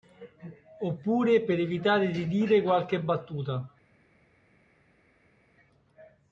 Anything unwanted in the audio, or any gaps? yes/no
no